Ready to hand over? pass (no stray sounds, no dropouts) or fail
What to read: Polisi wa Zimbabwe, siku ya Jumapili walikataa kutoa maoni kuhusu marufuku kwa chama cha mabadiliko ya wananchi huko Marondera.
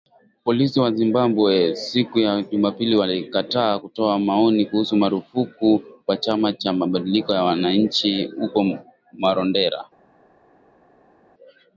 pass